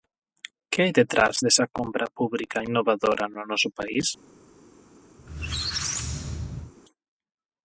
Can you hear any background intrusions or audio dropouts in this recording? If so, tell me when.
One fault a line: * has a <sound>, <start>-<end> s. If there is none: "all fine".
* has a squeak, 5.2-6.7 s